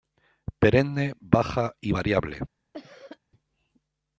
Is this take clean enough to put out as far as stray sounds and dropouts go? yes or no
no